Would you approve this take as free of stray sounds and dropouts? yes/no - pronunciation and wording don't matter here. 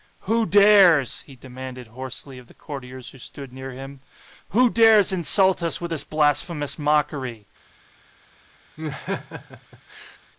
no